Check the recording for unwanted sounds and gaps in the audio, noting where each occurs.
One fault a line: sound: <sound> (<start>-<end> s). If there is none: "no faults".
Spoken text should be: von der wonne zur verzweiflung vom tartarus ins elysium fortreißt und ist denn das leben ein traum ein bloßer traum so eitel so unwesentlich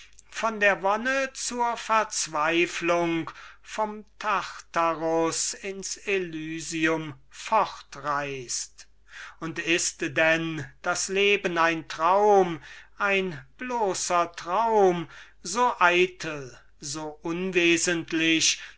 no faults